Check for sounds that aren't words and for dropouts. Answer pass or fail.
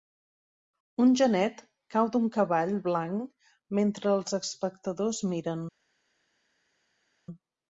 pass